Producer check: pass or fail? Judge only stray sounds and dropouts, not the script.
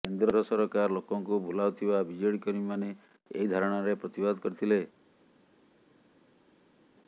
pass